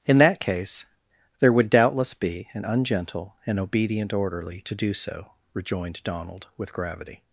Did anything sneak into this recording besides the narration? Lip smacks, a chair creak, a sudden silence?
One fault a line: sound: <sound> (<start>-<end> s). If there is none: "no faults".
no faults